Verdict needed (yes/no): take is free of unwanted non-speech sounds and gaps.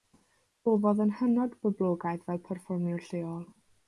yes